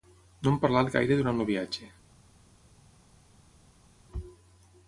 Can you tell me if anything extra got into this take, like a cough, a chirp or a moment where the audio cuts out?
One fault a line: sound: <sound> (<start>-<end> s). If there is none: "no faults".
no faults